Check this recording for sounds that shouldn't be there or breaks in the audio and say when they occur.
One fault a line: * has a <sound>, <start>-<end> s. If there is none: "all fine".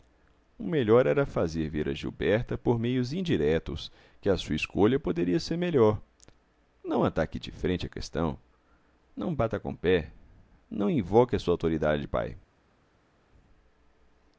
all fine